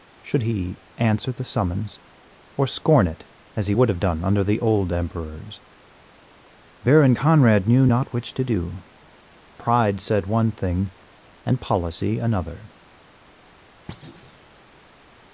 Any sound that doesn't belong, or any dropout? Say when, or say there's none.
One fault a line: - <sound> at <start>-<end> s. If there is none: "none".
- thud at 13.9-14.5 s